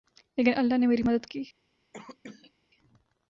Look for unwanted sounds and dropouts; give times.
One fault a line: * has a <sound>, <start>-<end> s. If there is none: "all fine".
* has a cough, 1.9-2.5 s